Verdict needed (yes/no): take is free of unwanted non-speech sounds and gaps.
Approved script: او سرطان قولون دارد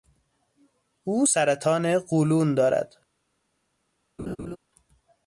no